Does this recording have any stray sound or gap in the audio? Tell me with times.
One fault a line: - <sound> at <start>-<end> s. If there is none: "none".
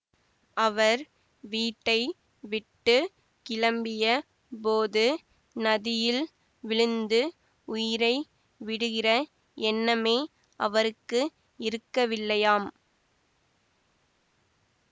none